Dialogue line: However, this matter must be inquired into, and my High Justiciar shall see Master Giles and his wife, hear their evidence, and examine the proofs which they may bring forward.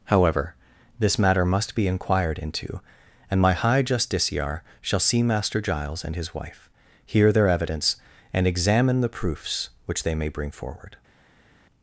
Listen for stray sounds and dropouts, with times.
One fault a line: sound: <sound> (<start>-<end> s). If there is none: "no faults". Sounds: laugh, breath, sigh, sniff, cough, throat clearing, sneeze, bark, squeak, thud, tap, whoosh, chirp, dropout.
no faults